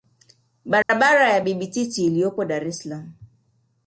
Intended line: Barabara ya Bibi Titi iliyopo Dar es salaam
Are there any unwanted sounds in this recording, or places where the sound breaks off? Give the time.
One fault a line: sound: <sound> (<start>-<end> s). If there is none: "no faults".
sound: dropout (0.8-0.9 s)